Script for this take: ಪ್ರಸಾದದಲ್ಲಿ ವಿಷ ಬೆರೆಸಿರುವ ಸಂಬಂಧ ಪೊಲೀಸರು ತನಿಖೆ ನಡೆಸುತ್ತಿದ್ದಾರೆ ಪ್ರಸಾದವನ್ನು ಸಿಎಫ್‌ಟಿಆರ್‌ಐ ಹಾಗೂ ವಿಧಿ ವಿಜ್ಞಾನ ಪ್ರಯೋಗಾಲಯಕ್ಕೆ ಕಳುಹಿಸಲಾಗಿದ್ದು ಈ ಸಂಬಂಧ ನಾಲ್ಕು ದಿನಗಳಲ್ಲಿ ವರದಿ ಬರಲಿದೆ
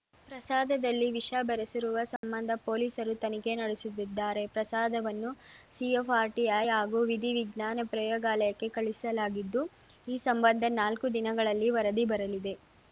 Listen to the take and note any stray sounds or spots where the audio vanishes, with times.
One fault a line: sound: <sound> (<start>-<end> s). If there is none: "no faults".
sound: dropout (2.2-2.2 s)